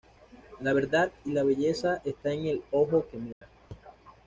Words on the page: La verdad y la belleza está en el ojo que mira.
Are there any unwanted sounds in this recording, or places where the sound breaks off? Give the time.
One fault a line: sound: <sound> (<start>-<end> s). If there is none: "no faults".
sound: dropout (3.3-3.4 s)